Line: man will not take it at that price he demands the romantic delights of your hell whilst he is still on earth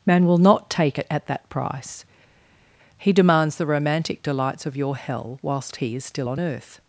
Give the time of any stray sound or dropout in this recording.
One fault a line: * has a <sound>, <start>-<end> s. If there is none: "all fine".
all fine